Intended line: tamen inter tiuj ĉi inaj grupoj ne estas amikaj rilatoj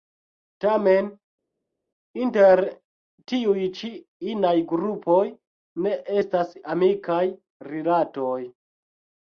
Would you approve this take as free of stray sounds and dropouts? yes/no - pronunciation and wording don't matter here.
yes